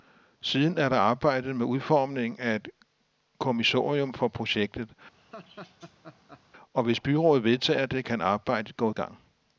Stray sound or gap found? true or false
true